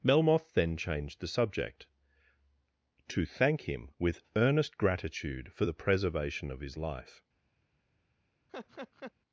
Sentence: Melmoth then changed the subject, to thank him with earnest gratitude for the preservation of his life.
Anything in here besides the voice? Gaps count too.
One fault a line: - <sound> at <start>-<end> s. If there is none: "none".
- laugh at 8.5-9.1 s